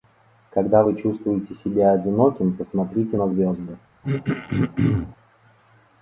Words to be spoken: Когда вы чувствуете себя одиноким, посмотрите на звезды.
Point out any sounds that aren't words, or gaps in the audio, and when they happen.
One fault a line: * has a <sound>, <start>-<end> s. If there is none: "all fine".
* has a throat clearing, 4.0-5.2 s